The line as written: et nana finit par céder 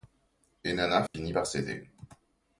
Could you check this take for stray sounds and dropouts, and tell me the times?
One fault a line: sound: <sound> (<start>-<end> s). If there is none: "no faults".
sound: dropout (1.1-1.1 s)